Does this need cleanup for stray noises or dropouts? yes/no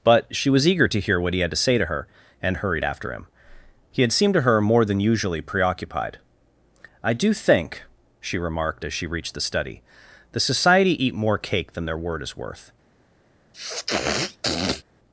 yes